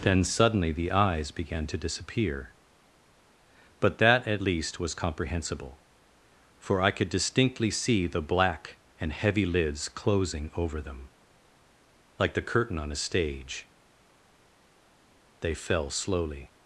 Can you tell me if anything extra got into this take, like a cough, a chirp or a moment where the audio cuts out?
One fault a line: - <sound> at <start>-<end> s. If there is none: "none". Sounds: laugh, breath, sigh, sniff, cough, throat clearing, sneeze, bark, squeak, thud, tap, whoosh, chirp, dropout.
none